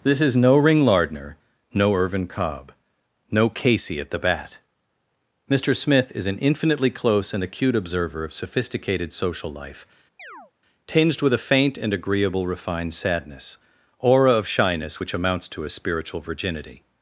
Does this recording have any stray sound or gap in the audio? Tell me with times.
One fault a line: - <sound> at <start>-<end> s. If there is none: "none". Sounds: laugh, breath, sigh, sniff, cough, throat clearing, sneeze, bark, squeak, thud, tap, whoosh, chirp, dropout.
- chirp at 10.2-10.5 s